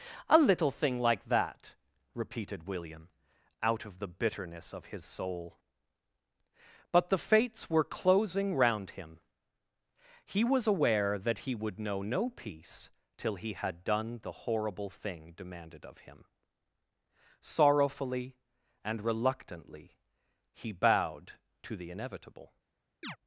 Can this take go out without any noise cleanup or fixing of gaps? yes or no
no